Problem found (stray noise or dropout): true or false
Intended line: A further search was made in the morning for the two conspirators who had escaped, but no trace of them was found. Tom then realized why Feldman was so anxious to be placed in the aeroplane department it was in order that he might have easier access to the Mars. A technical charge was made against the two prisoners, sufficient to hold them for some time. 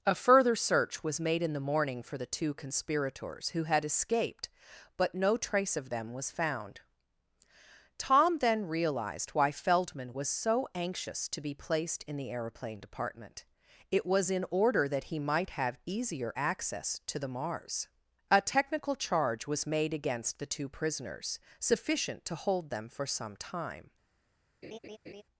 true